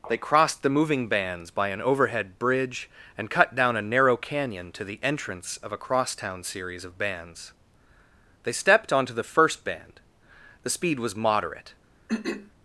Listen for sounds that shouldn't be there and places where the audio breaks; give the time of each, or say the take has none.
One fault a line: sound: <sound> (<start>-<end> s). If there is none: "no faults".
sound: throat clearing (12.1-12.5 s)